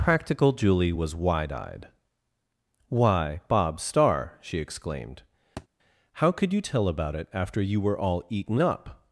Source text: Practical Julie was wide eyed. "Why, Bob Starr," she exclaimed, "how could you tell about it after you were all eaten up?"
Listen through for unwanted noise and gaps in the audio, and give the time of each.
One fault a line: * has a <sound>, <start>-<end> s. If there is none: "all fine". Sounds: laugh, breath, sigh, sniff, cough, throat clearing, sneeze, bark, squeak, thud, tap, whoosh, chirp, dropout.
* has a thud, 5.6-5.7 s